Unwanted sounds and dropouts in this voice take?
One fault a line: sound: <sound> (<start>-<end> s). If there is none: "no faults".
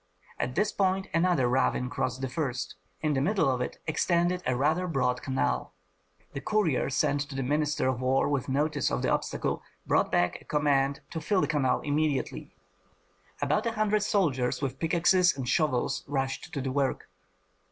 no faults